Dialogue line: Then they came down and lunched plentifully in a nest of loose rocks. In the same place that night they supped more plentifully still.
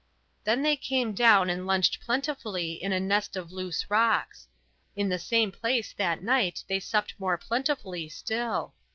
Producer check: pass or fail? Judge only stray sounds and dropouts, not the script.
pass